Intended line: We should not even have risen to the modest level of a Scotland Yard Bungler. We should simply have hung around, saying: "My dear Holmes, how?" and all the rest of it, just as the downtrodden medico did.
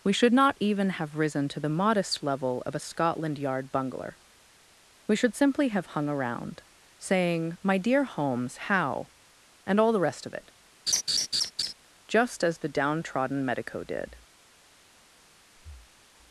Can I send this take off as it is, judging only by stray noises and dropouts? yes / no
no